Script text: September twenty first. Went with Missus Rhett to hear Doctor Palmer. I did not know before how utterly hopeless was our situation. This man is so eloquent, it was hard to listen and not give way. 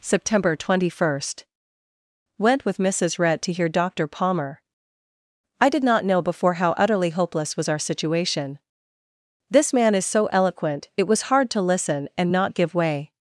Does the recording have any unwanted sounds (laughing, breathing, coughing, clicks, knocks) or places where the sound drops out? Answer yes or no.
no